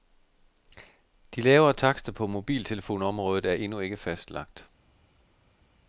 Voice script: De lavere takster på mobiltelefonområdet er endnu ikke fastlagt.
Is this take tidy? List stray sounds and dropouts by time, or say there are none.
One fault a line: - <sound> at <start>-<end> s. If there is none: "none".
none